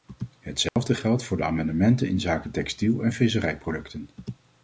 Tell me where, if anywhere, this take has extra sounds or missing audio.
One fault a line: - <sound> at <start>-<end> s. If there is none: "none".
- dropout at 0.7-0.8 s